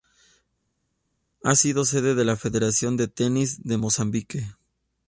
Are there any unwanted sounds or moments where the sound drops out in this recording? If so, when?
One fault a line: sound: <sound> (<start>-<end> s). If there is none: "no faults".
no faults